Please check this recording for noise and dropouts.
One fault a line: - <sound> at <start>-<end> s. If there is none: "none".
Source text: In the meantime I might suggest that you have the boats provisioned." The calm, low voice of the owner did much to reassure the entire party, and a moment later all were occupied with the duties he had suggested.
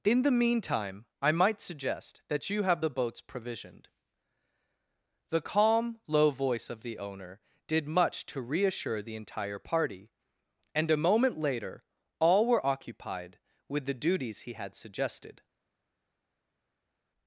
none